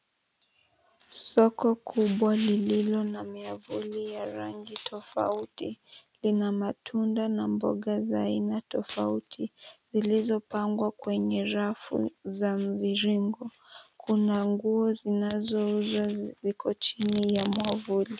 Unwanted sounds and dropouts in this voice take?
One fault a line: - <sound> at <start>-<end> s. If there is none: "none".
none